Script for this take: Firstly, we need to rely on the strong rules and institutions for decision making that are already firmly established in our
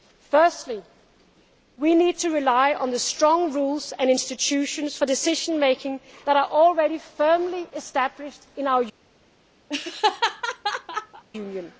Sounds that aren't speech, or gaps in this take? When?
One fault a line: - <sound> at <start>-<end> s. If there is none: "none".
- laugh at 9.7-11.2 s